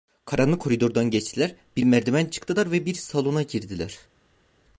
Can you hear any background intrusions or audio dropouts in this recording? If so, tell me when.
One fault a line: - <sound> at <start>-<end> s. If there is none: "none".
none